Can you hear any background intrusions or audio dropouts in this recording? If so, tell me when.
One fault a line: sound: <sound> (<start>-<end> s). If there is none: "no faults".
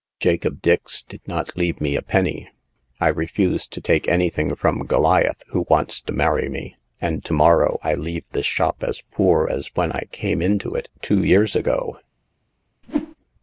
sound: whoosh (12.8-13.2 s)